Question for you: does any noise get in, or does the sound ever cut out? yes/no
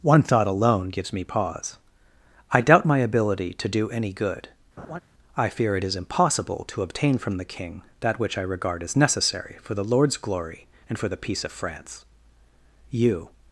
yes